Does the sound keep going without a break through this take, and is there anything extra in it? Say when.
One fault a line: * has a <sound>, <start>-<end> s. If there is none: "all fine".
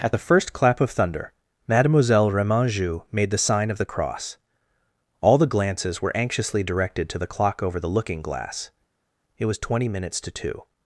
all fine